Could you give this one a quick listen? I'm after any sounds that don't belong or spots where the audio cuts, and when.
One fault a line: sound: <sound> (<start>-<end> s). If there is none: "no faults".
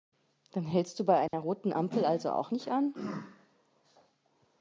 sound: dropout (1.3-1.3 s)